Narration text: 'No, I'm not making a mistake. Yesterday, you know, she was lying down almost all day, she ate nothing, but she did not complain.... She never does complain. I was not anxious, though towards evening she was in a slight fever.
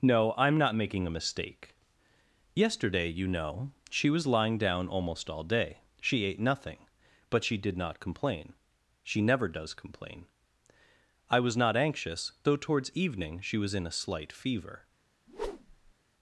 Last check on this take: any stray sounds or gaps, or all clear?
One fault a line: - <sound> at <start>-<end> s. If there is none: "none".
- whoosh at 15.3-15.9 s